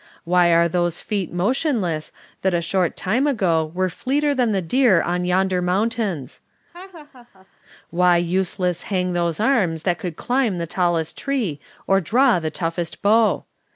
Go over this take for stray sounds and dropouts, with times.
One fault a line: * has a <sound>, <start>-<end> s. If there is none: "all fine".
* has a laugh, 6.7-7.5 s